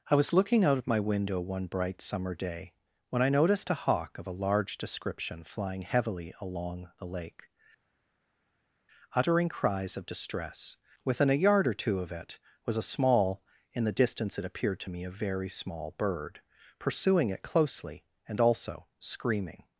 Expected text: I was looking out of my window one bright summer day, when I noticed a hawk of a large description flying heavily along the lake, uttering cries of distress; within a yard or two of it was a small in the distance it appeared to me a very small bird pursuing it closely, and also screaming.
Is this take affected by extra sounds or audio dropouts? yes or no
no